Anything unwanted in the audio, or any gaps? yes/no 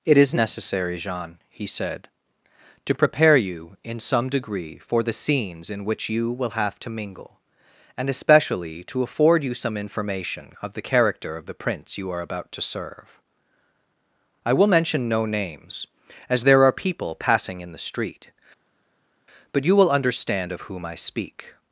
no